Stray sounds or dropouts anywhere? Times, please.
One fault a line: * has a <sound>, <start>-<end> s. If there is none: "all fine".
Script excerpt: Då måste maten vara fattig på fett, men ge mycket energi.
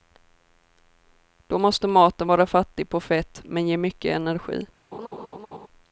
* has a laugh, 4.9-5.7 s